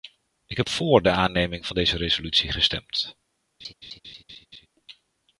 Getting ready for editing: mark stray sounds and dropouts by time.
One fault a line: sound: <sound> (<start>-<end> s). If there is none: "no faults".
sound: laugh (3.6-4.7 s)